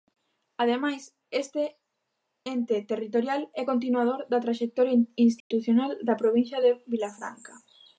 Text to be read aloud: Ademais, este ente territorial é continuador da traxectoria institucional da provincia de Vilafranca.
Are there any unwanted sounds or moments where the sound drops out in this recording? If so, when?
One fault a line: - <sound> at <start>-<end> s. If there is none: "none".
- dropout at 5.4-5.5 s